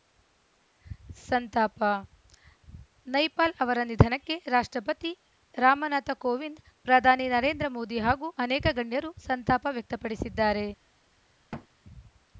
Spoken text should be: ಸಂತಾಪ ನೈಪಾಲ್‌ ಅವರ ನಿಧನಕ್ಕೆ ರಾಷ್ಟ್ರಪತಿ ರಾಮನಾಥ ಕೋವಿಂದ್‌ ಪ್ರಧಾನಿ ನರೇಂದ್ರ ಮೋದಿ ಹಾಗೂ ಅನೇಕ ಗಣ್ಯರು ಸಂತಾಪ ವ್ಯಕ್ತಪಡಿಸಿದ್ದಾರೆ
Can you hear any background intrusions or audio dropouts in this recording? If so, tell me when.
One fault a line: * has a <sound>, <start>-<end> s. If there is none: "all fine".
* has a thud, 11.5-11.7 s